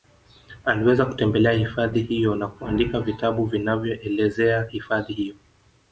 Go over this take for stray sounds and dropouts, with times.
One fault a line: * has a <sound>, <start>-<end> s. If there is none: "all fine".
all fine